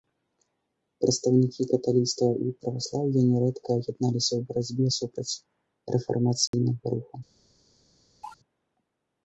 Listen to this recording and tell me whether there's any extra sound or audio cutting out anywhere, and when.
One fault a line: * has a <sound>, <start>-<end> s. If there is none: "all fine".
* has a dropout, 6.5-6.5 s
* has a cough, 8.2-8.4 s